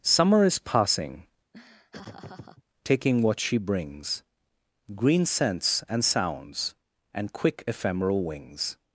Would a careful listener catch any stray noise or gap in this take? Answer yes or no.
yes